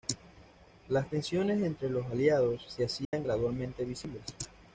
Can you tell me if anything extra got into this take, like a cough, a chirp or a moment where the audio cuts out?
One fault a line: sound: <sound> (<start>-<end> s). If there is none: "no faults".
sound: dropout (3.0-3.1 s)